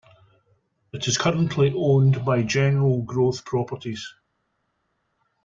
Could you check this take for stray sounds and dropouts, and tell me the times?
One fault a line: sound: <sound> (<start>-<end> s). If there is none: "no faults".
no faults